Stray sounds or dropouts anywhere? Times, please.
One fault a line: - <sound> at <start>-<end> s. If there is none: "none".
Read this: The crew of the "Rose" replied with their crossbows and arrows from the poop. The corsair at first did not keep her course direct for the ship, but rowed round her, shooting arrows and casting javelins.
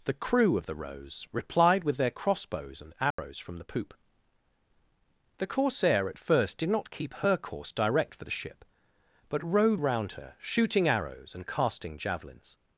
- dropout at 3.1-3.2 s